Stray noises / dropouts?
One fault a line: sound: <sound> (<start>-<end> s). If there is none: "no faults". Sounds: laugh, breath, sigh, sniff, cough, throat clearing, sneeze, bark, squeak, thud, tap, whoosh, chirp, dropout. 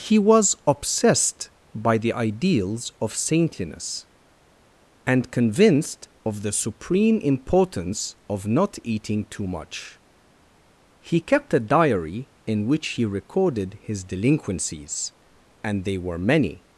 no faults